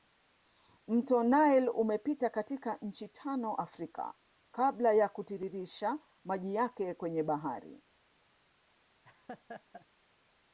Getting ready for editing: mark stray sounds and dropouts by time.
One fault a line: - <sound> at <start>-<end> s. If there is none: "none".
- laugh at 9.0-9.9 s